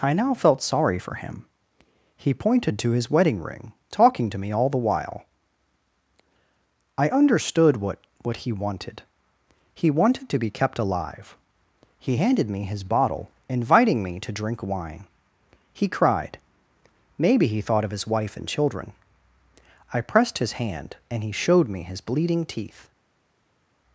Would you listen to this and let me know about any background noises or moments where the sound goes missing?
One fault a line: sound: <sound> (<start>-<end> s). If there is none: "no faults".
no faults